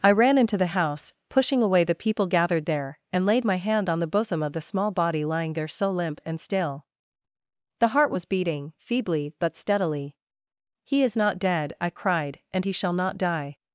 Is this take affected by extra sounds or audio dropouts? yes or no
no